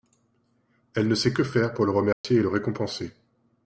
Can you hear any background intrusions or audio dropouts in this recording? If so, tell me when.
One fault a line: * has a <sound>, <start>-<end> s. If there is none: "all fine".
* has a dropout, 2.1-2.2 s